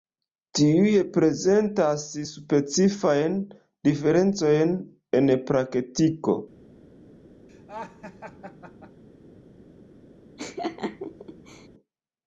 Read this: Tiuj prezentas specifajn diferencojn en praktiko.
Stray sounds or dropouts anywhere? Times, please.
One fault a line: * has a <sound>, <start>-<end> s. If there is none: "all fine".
* has a laugh, 7.5-9.0 s
* has a laugh, 10.4-11.7 s